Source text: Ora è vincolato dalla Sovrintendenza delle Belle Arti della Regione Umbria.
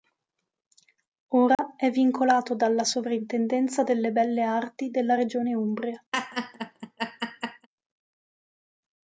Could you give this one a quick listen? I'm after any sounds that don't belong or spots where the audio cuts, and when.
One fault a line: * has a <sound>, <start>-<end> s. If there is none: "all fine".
* has a dropout, 1.6-1.6 s
* has a laugh, 6.1-7.7 s